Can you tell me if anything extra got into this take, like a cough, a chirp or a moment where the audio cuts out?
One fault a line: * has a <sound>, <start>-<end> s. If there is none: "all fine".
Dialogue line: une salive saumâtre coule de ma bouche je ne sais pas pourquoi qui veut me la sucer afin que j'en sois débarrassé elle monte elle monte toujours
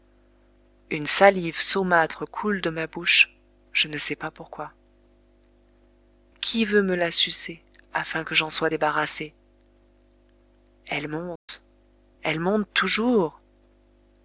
* has a dropout, 11.4-11.5 s